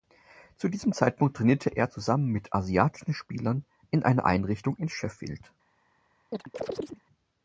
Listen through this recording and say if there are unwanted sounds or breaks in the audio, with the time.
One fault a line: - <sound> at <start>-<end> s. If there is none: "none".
- chirp at 6.3-7.0 s